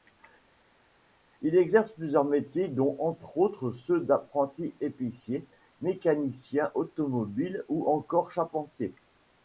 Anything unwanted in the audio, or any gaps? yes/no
no